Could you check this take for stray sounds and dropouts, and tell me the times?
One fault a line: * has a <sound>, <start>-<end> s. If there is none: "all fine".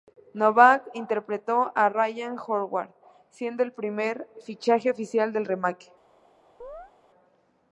* has a chirp, 6.6-6.9 s